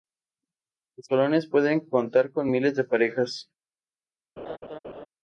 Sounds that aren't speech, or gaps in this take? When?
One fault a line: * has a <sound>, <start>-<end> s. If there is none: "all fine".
* has a laugh, 4.4-5.1 s